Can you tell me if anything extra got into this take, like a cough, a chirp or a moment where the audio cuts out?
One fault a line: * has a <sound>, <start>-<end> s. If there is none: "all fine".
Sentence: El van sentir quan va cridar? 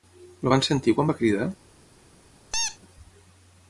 * has a squeak, 2.5-2.8 s